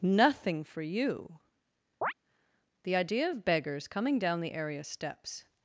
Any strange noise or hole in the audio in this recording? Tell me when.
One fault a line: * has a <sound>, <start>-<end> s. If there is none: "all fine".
* has a chirp, 2.0-2.1 s